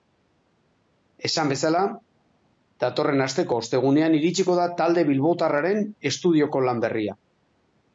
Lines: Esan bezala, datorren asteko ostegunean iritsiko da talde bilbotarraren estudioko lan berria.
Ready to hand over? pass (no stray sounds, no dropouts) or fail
pass